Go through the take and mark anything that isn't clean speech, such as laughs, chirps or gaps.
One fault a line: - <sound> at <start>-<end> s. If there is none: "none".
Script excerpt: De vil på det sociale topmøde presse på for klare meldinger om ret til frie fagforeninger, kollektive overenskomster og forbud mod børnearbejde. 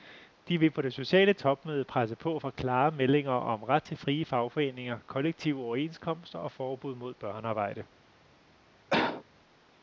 - cough at 8.9-9.2 s